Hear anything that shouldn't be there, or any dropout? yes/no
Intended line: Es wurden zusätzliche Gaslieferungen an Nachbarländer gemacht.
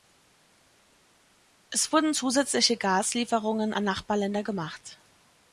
no